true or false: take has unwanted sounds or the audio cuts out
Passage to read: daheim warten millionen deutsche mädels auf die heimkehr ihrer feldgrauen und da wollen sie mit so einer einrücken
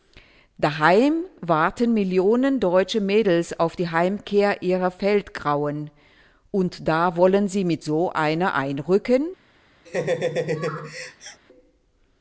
true